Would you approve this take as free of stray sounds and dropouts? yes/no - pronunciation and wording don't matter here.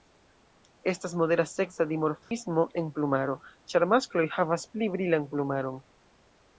no